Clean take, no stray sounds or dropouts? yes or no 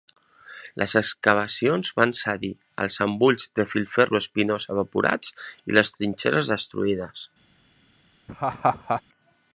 no